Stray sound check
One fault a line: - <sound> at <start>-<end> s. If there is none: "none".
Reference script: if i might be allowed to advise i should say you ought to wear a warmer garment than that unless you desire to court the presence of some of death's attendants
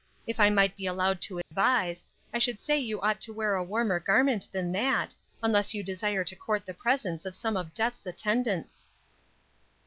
- dropout at 1.4-1.5 s